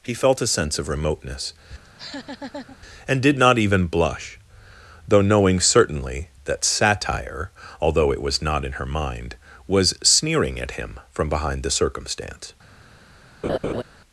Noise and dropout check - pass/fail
fail